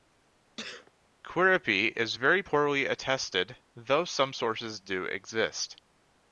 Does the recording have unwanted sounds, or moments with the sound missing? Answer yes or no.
yes